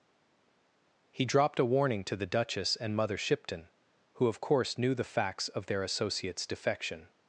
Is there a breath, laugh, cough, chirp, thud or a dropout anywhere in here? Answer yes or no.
no